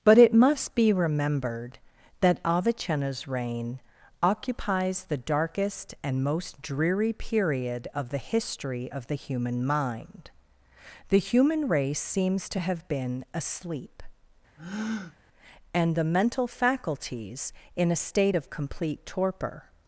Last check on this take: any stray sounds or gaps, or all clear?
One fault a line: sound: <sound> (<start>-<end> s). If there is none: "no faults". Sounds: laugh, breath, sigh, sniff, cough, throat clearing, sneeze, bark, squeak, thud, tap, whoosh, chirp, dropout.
sound: breath (14.6-15.2 s)